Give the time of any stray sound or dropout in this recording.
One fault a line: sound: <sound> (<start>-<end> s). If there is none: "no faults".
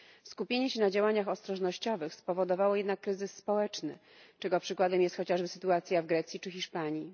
no faults